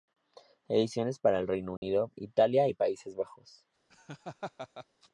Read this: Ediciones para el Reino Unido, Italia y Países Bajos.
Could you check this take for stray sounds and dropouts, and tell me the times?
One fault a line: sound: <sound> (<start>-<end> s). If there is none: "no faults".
sound: dropout (1.8-1.8 s)
sound: laugh (3.9-4.9 s)